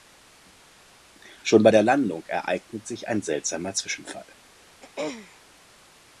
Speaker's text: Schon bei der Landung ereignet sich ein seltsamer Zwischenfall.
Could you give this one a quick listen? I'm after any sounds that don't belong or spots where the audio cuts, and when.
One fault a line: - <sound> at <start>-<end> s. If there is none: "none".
- throat clearing at 4.8-5.4 s